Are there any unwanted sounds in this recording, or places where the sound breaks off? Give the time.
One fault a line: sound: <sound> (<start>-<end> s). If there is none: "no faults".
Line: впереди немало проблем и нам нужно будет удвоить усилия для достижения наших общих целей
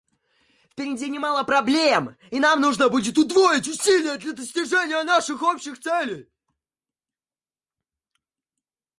no faults